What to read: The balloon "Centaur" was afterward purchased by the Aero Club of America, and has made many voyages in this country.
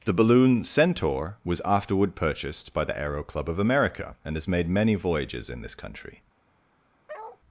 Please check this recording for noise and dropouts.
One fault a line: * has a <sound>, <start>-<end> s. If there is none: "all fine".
* has a bark, 7.1-7.4 s